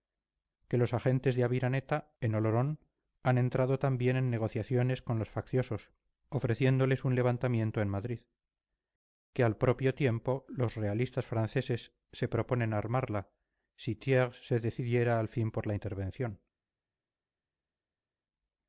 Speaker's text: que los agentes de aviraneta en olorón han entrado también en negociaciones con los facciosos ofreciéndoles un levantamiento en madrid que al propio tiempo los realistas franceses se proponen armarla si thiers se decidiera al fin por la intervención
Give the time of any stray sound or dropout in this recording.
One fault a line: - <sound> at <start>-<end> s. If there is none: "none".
none